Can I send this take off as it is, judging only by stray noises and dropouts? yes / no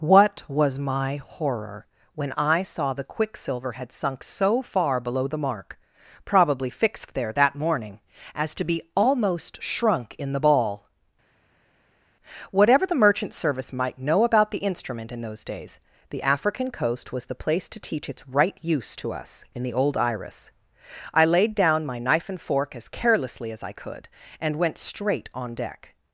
yes